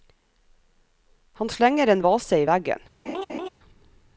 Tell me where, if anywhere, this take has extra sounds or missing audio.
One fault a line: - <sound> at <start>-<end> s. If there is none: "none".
- laugh at 3.1-3.5 s